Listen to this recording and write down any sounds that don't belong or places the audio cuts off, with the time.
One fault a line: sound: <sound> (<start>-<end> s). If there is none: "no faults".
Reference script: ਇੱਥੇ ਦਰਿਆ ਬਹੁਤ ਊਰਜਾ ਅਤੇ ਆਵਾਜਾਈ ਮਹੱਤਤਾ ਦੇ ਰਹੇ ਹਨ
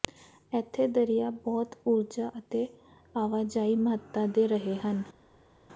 no faults